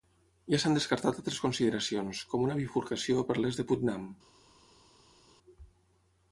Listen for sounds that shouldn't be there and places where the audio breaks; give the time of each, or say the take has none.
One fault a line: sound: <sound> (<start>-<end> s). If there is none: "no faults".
no faults